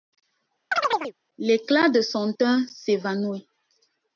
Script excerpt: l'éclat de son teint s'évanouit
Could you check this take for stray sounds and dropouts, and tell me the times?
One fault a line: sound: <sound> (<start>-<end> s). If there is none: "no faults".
sound: chirp (0.7-1.1 s)